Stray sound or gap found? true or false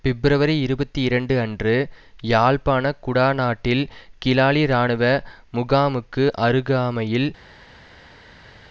false